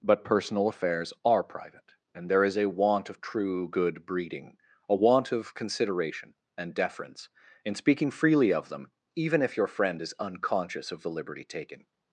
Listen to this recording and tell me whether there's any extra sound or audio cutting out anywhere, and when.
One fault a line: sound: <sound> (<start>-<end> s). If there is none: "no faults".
no faults